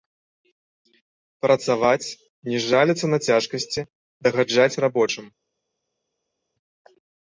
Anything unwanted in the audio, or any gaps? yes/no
no